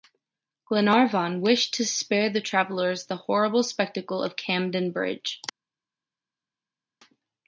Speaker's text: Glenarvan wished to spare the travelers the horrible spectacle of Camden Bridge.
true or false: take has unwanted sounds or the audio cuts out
false